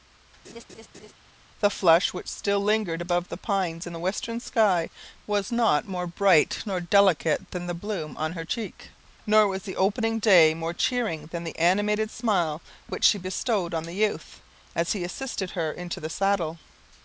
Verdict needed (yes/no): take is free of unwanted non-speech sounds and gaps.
no